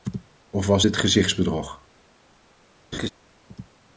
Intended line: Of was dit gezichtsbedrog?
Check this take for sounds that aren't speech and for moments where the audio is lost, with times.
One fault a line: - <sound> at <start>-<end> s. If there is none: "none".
- laugh at 2.9-3.1 s